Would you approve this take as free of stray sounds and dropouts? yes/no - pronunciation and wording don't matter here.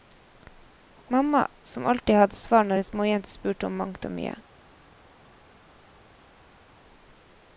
yes